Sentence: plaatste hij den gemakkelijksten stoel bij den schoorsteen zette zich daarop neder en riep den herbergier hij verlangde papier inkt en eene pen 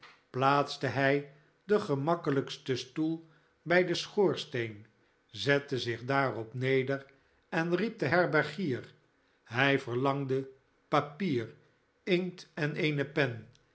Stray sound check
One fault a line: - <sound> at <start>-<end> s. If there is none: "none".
none